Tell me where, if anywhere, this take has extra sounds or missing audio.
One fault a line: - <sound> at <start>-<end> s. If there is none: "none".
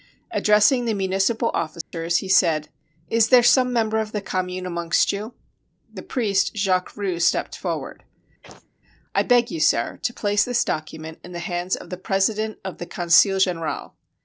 - dropout at 1.8-1.9 s
- sneeze at 8.4-8.7 s